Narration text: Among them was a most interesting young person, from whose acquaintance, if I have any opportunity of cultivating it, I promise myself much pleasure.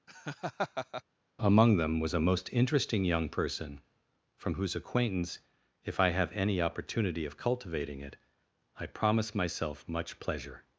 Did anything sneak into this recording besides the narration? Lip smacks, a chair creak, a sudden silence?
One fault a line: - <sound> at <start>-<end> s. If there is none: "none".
- laugh at 0.1-1.0 s